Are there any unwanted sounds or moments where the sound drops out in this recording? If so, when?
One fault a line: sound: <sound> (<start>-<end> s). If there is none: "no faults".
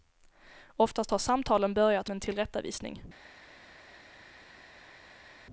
no faults